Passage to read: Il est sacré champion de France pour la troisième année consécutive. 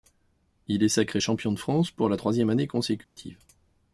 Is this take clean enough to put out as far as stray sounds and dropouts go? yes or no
no